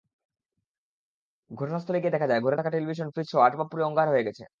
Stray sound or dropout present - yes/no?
no